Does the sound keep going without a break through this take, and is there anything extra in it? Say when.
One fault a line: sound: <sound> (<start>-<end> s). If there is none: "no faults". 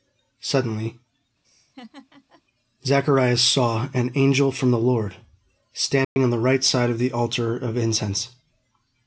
sound: laugh (1.4-2.4 s)
sound: dropout (6.0-6.2 s)